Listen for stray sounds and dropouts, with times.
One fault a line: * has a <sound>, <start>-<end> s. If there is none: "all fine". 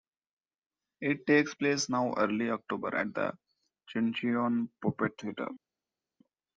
all fine